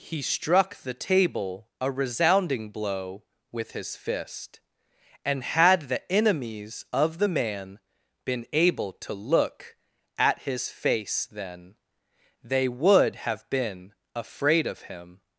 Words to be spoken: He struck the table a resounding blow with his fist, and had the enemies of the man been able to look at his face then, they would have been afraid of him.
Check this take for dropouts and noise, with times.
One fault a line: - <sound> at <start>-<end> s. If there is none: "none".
none